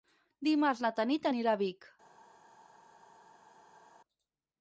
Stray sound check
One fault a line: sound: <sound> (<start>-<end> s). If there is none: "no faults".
no faults